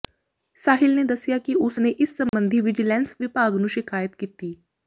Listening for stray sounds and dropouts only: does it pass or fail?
fail